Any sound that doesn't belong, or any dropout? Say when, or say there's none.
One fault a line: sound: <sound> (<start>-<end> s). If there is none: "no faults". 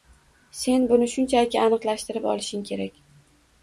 no faults